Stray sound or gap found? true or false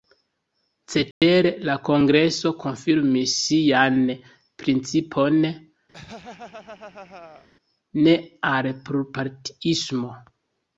true